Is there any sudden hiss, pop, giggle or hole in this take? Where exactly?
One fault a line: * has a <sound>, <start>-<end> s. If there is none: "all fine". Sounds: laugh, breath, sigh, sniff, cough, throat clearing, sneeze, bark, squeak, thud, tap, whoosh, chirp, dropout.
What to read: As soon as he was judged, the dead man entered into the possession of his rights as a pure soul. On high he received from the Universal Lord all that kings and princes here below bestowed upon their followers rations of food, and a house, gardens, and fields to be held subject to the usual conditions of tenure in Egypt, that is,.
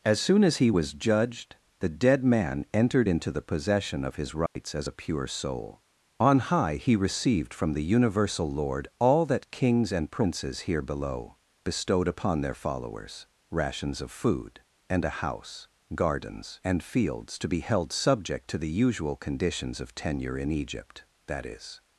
* has a dropout, 4.5-4.6 s